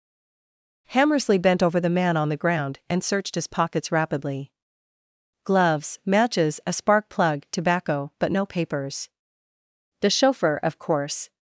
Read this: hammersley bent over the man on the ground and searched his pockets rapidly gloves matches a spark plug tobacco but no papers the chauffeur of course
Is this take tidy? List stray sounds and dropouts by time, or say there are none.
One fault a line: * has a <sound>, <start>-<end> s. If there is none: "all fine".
all fine